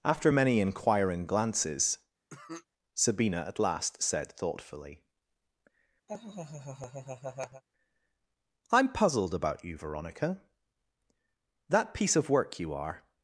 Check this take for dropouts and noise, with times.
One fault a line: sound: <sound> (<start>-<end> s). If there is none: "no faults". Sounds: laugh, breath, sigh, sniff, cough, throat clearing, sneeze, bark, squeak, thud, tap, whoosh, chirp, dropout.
sound: cough (2.3-2.7 s)
sound: laugh (6.1-7.6 s)